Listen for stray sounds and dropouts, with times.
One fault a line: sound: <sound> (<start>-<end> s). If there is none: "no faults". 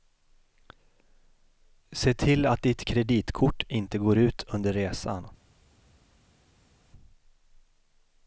no faults